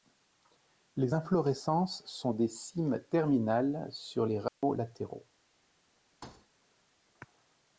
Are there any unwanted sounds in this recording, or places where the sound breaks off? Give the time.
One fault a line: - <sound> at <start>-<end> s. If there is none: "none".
- dropout at 4.5-4.6 s
- thud at 6.2-6.5 s